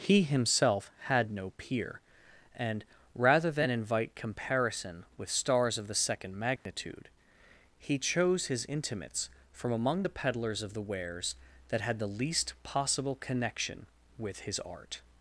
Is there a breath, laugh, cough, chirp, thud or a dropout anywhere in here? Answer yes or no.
yes